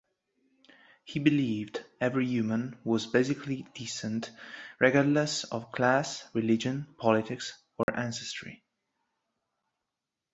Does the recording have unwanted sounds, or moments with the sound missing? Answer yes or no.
yes